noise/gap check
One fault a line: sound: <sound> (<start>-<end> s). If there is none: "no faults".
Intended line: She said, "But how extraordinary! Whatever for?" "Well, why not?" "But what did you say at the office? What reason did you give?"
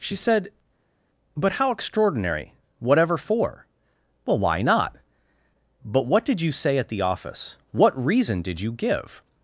no faults